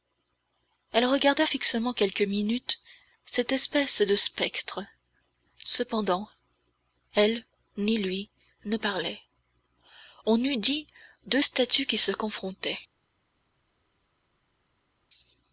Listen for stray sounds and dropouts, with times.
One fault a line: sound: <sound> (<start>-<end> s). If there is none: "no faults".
no faults